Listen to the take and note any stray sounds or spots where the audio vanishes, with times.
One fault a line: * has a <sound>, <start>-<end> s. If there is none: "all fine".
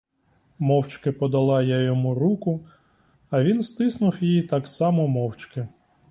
all fine